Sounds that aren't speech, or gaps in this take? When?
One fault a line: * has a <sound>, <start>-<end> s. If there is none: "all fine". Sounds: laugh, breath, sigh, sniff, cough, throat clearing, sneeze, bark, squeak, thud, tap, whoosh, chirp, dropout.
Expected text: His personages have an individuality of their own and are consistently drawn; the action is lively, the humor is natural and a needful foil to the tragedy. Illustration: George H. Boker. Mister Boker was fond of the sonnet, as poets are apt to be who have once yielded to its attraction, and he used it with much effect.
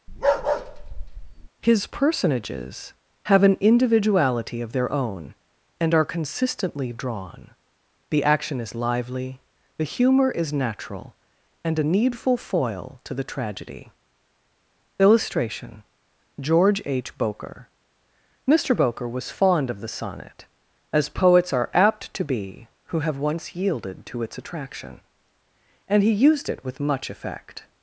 * has a bark, 0.1-1.5 s